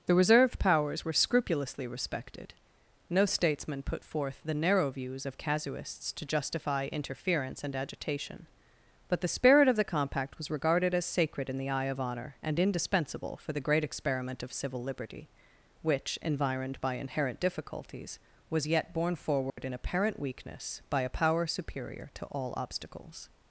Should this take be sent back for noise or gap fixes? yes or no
yes